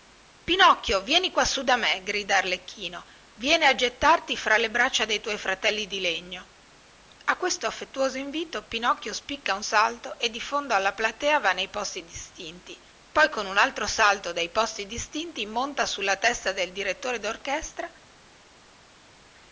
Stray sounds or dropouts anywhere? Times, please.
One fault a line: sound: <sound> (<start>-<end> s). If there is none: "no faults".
no faults